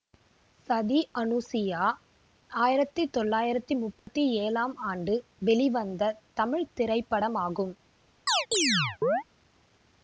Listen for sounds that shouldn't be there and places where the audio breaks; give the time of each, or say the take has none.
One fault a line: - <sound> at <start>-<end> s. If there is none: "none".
- dropout at 4.0-4.1 s
- chirp at 8.3-9.2 s